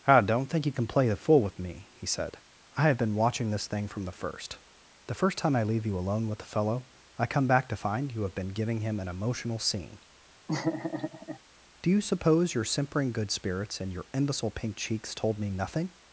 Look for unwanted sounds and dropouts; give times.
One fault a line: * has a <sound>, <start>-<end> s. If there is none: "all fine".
* has a laugh, 10.5-11.4 s